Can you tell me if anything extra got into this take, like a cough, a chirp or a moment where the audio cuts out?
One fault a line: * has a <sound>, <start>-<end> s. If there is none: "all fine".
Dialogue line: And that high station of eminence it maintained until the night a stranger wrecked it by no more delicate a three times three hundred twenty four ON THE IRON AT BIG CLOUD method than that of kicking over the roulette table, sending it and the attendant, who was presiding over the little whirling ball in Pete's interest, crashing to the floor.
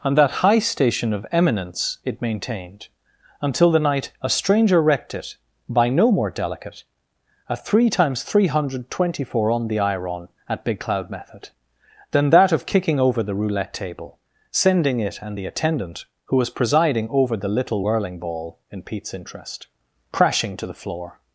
all fine